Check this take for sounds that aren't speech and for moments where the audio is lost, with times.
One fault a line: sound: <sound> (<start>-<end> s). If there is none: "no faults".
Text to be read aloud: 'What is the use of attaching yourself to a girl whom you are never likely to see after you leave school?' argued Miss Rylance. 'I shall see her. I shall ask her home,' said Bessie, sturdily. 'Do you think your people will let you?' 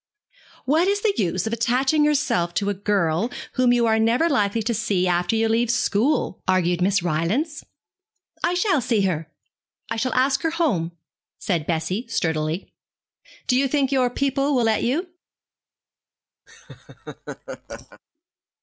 sound: laugh (16.5-18.0 s)